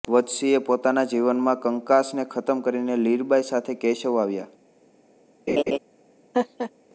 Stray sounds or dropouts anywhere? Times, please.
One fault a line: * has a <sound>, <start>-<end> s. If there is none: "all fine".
* has a laugh, 5.5-5.8 s
* has a laugh, 6.3-6.7 s